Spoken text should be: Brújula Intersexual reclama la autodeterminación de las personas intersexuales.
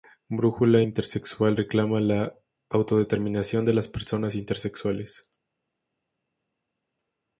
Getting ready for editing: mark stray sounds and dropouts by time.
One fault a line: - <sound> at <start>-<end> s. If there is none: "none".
none